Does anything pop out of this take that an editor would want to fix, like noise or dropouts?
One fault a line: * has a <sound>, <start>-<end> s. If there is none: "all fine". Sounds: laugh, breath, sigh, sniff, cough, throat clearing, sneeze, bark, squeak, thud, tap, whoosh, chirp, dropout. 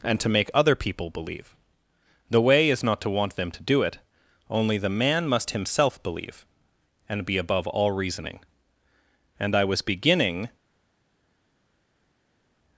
all fine